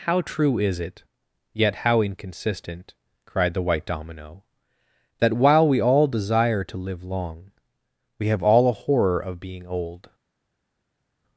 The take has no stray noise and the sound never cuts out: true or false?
true